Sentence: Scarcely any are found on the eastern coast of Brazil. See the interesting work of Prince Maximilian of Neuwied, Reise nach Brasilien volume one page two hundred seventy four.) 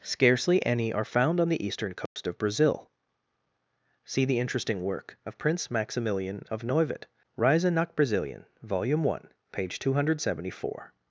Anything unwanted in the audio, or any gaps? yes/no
yes